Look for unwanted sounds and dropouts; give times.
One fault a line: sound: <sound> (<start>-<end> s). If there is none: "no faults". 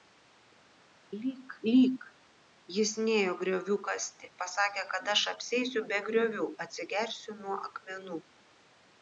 no faults